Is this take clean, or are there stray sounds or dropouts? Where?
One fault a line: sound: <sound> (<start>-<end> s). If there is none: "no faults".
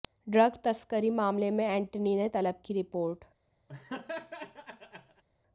sound: laugh (3.7-5.2 s)